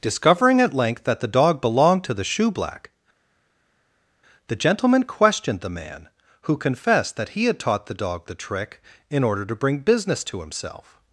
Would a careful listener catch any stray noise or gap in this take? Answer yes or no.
no